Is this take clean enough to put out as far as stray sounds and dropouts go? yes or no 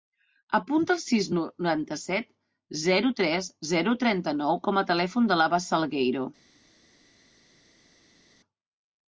yes